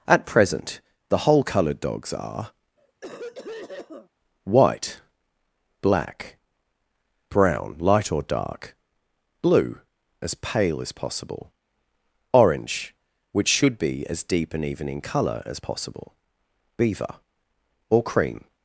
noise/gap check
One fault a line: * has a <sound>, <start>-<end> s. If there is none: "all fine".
* has a cough, 2.8-4.1 s